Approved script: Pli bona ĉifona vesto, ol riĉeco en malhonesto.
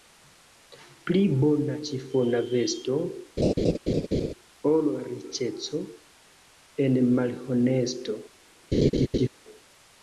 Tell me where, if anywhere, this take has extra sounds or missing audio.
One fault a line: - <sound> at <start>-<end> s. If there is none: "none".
- laugh at 3.4-4.3 s
- laugh at 8.7-9.3 s